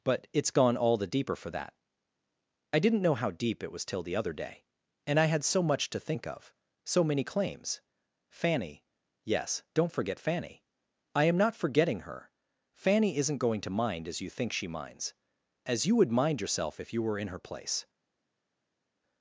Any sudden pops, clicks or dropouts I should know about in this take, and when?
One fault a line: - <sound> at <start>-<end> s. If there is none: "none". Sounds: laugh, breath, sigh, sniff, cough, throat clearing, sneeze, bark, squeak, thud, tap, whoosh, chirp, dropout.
none